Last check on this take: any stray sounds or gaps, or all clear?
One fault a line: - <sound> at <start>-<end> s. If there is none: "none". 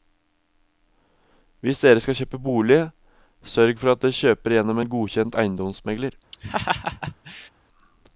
- laugh at 6.3-7.5 s